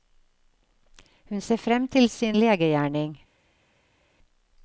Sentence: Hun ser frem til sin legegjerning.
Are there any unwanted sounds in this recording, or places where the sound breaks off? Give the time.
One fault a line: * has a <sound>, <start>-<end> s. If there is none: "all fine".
all fine